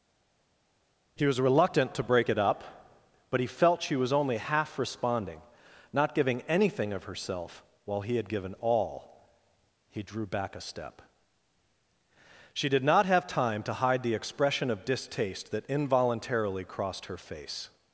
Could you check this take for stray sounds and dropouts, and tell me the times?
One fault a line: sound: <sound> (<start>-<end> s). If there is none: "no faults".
no faults